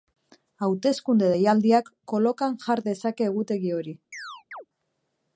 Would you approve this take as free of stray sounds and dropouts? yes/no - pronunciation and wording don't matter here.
no